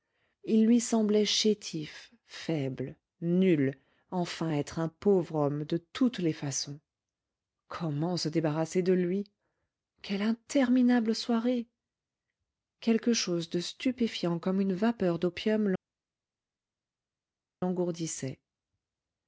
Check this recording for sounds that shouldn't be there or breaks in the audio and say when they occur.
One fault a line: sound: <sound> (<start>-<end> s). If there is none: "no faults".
no faults